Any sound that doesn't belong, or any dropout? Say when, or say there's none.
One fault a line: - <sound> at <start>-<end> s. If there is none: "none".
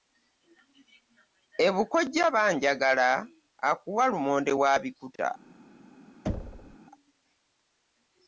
- thud at 6.3-6.8 s